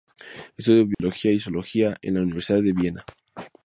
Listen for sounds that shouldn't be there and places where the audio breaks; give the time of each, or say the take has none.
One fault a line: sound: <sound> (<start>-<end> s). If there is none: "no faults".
sound: dropout (0.9-1.0 s)